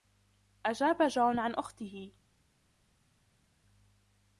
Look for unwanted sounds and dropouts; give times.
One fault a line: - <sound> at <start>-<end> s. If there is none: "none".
none